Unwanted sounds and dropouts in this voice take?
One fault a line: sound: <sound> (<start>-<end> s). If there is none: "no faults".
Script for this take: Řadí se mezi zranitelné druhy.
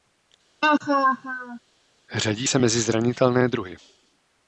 sound: laugh (0.6-1.6 s)